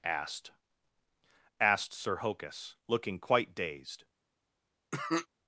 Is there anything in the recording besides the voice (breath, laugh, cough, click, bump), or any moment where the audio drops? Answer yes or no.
yes